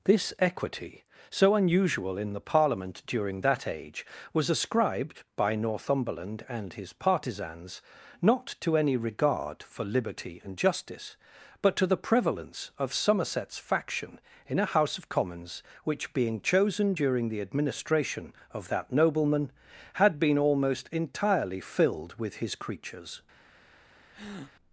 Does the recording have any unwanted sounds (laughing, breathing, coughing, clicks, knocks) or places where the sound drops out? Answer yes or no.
yes